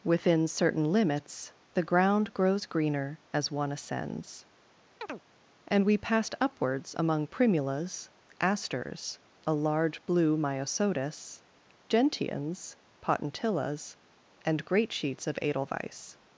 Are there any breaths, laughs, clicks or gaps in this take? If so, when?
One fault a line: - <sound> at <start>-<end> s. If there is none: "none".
- chirp at 5.0-5.2 s